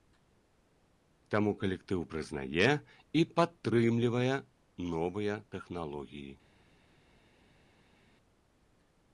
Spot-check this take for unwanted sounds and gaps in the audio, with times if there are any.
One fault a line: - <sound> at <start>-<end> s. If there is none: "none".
none